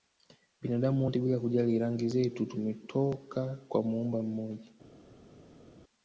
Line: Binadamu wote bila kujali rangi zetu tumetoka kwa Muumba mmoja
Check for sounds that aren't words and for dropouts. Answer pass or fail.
pass